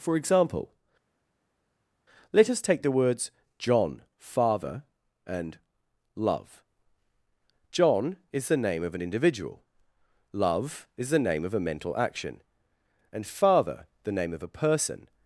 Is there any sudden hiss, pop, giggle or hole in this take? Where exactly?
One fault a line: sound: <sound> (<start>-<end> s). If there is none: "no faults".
no faults